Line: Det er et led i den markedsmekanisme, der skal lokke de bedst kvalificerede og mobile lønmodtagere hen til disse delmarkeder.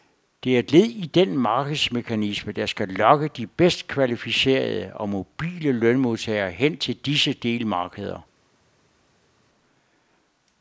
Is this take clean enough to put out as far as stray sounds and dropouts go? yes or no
yes